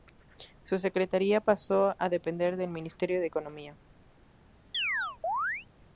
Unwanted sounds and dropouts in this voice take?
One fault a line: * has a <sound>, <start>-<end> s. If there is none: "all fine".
* has a chirp, 4.7-5.7 s